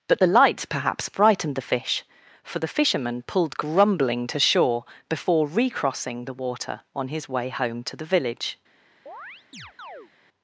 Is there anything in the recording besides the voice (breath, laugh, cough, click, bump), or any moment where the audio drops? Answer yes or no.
yes